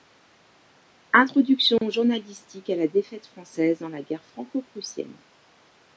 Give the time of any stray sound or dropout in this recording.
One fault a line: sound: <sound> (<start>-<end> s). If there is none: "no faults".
sound: dropout (1.8-1.8 s)